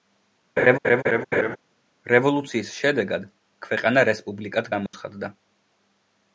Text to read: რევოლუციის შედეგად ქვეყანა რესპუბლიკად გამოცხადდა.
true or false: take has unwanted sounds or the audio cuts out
true